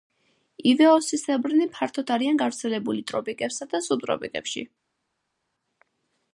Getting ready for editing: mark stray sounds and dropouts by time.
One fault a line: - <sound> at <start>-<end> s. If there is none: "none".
none